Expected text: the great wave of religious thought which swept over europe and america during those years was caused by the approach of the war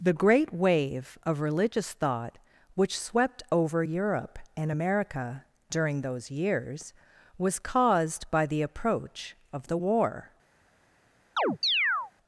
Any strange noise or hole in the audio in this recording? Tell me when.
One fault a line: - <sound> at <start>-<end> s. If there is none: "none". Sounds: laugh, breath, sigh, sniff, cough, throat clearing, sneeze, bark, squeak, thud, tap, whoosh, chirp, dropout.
- chirp at 11.4-12.1 s